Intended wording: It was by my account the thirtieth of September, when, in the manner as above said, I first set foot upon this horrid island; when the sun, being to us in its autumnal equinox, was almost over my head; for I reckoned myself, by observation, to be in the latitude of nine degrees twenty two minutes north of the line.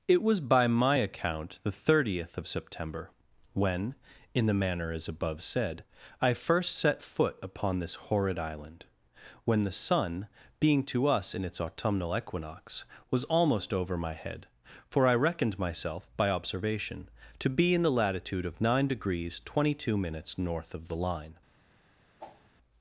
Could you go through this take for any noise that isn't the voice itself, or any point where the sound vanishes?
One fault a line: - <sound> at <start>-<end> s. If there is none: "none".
- whoosh at 22.2-22.5 s